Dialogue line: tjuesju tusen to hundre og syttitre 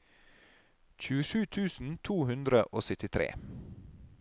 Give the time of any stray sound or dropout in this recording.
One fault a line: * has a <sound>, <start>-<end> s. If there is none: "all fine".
all fine